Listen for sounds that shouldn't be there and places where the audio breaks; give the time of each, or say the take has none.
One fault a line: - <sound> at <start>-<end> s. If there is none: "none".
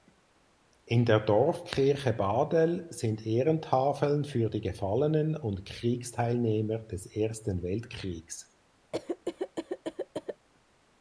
- cough at 8.9-10.5 s